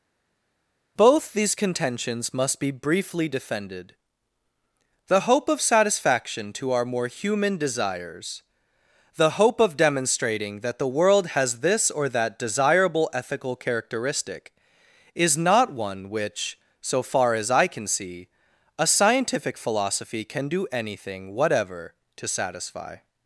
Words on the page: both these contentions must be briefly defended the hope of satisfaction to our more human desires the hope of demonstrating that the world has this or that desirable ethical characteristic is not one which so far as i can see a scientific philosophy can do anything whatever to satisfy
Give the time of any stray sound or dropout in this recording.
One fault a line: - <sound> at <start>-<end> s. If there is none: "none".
none